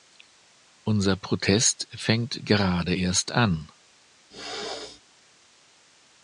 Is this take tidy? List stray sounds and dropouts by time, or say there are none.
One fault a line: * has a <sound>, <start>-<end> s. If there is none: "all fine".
* has a throat clearing, 4.3-5.0 s